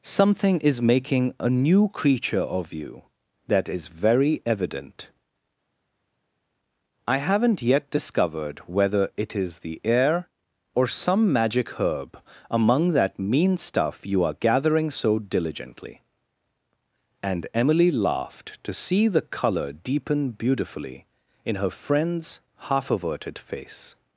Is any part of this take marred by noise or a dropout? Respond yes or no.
no